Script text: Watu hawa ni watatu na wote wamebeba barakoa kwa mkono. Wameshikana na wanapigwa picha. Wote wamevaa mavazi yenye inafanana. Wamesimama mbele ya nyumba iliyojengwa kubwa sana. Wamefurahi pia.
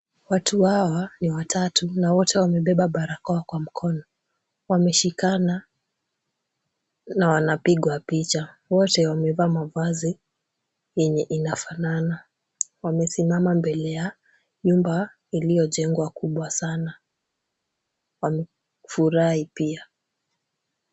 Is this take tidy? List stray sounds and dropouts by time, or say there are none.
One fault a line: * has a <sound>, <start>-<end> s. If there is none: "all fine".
all fine